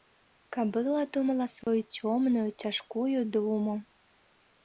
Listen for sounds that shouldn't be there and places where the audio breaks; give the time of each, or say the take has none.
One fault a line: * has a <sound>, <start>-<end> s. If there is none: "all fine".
* has a dropout, 1.6-1.7 s